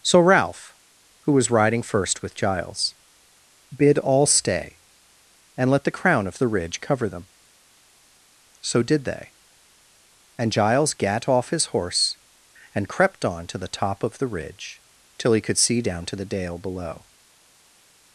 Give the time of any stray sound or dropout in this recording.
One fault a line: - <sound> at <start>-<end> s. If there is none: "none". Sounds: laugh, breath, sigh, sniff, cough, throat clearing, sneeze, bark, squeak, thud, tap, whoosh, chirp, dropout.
none